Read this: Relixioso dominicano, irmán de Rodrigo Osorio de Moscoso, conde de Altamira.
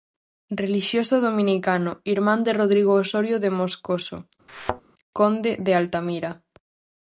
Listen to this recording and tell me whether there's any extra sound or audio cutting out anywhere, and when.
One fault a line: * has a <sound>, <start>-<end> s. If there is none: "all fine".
* has a thud, 4.5-4.8 s